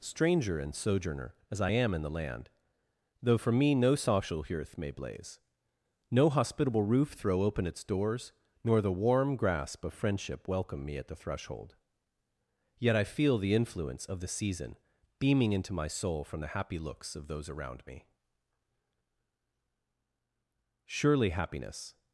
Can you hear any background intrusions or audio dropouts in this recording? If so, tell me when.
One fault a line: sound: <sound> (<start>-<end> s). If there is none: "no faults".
no faults